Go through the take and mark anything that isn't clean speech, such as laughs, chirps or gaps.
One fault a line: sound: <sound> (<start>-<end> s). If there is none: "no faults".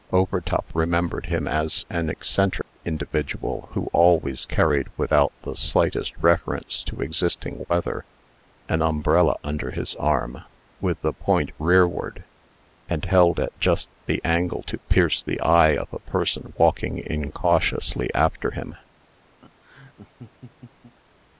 sound: dropout (2.6-2.8 s)
sound: laugh (19.4-20.9 s)